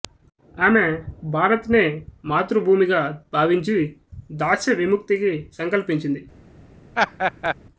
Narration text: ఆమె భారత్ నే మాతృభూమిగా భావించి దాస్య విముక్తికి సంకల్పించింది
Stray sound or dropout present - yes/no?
yes